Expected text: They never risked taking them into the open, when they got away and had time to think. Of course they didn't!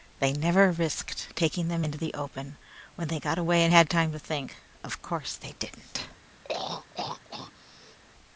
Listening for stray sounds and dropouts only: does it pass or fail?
fail